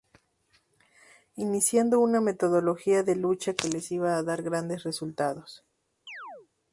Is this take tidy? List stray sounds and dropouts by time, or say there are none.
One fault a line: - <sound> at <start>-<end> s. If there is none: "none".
- chirp at 6.1-6.5 s